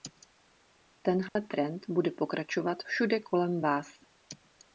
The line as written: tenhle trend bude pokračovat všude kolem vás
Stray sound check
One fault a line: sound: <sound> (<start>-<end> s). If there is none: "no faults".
sound: dropout (1.3-1.4 s)